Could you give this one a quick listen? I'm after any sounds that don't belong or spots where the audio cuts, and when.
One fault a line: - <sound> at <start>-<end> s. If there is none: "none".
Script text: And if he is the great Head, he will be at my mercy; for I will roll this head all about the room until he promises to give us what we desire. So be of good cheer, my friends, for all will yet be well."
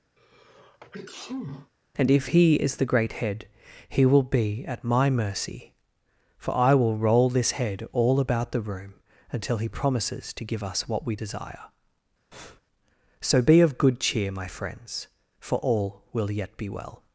- sneeze at 0.2-1.7 s
- breath at 12.3-12.6 s